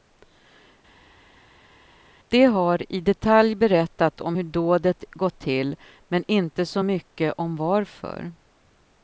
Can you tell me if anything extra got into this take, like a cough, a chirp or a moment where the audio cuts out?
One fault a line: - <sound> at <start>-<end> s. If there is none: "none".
none